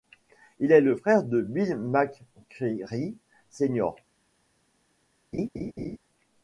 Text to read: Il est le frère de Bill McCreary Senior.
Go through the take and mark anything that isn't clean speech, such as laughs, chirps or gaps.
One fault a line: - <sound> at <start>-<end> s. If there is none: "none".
- laugh at 5.3-6.0 s